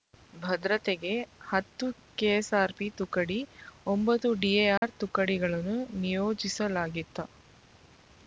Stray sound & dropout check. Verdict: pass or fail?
fail